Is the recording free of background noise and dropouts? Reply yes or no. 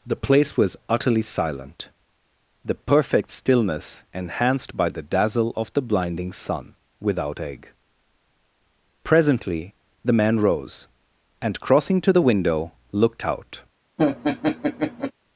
no